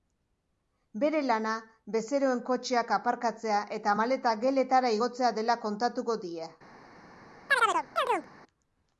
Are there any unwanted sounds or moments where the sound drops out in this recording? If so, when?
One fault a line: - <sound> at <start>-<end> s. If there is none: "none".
- chirp at 7.5-8.3 s